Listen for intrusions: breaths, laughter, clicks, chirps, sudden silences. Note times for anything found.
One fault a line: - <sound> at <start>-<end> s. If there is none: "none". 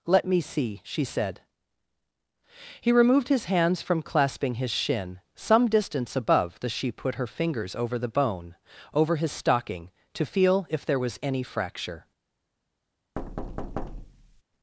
- thud at 13.2-14.4 s